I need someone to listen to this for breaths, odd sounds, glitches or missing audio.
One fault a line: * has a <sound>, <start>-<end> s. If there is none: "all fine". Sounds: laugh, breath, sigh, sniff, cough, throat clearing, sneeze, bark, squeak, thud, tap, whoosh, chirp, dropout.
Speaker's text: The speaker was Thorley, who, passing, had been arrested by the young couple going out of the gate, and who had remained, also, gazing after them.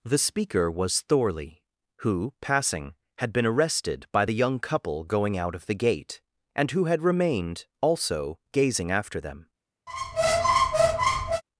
* has a squeak, 9.9-11.4 s